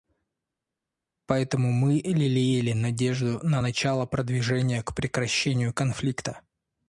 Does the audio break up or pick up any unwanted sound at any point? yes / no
no